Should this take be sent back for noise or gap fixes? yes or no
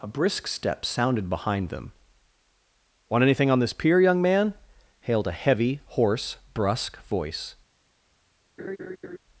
yes